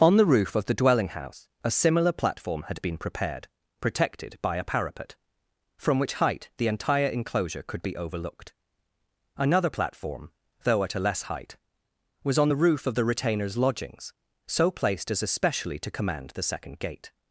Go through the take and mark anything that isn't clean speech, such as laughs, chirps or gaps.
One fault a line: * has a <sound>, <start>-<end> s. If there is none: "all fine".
all fine